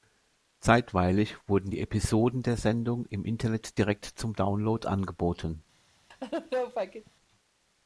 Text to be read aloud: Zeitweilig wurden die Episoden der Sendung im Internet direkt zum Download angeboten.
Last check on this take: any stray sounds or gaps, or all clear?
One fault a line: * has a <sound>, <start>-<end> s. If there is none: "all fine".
* has a laugh, 6.1-7.1 s